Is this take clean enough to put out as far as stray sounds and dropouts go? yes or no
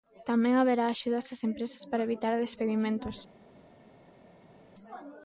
yes